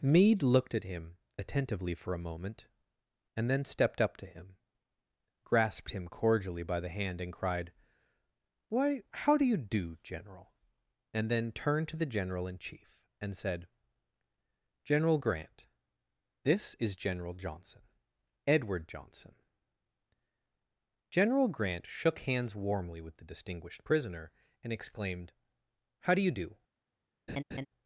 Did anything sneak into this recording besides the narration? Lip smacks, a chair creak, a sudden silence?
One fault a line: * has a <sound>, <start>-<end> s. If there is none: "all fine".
* has a laugh, 27.3-27.7 s